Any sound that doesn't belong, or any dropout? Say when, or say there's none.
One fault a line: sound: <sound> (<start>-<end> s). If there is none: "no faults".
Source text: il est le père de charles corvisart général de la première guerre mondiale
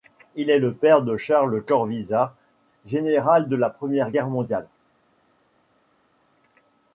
no faults